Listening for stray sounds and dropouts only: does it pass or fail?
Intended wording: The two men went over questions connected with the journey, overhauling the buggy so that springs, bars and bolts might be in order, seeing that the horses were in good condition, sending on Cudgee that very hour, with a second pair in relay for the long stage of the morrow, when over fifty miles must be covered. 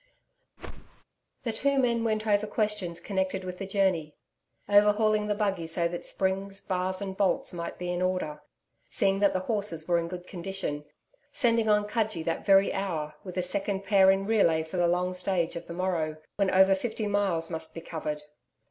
fail